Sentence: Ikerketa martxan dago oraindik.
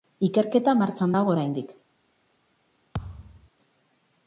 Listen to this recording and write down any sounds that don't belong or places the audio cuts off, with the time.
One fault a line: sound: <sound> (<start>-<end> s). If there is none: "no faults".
sound: thud (2.9-3.5 s)